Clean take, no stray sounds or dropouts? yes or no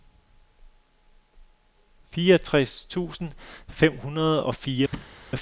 no